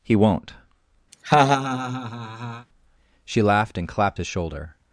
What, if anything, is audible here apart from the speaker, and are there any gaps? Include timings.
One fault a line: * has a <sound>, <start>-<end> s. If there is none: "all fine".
* has a laugh, 1.1-2.7 s